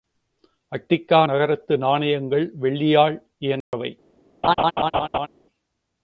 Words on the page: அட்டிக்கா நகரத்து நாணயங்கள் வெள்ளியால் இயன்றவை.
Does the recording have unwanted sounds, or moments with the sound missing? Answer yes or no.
yes